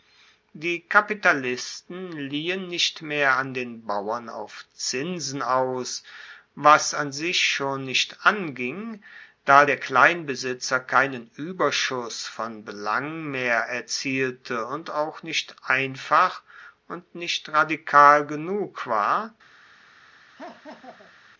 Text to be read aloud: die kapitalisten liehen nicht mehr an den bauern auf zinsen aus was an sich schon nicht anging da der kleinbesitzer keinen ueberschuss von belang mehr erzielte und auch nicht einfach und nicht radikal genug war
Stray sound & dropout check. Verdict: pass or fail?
fail